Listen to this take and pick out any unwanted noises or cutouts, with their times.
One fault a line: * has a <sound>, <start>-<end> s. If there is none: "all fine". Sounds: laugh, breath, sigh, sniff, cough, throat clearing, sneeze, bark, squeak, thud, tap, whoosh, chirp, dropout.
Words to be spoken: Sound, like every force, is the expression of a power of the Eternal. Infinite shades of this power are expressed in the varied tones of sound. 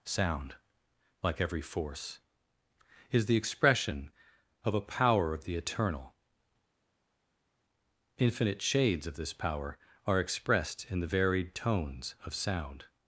all fine